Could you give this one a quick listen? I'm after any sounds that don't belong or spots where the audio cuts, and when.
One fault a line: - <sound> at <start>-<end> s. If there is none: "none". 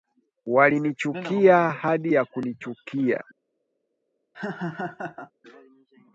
- laugh at 4.3-5.3 s